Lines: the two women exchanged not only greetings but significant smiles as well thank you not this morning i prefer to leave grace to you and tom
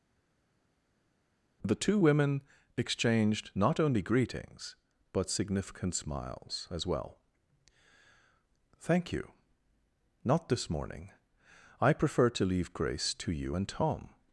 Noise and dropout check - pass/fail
pass